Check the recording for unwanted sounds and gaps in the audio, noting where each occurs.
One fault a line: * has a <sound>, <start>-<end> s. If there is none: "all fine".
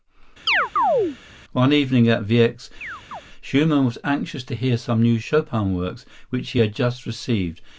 * has a chirp, 0.5-1.2 s
* has a chirp, 2.8-3.2 s